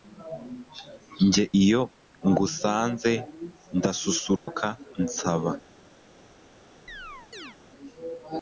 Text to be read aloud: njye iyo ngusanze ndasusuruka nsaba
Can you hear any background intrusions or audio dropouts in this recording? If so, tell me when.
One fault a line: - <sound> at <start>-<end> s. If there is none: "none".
- dropout at 4.4-4.5 s
- chirp at 6.9-7.6 s